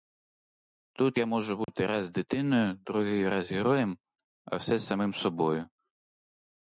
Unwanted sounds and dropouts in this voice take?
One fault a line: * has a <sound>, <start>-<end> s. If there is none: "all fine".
* has a dropout, 1.6-1.7 s